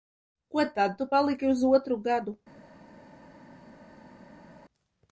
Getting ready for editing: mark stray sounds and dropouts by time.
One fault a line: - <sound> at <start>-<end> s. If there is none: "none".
none